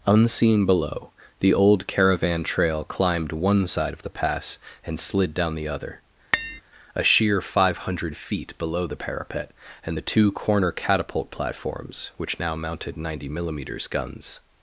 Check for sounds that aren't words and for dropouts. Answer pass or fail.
fail